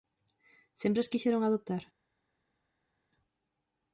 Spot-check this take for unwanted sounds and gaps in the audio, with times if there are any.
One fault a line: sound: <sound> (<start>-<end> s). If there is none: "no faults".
no faults